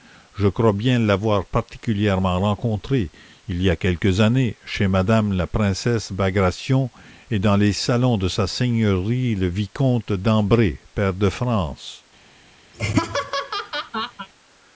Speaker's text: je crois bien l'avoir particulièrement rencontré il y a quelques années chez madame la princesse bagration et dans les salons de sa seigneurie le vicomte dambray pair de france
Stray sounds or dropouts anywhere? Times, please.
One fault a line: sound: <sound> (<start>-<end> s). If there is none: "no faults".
sound: laugh (12.7-14.3 s)